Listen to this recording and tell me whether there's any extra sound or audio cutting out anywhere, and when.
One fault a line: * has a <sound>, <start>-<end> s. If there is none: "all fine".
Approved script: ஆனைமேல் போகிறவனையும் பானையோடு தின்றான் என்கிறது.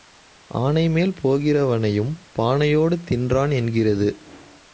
all fine